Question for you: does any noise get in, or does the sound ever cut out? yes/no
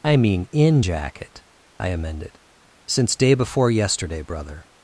no